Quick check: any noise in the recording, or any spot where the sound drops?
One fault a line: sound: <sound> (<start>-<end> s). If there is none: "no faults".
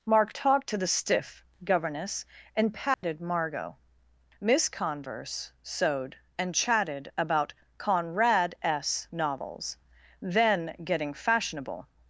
sound: dropout (2.9-3.0 s)